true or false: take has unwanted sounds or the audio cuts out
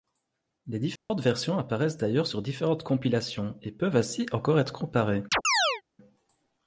true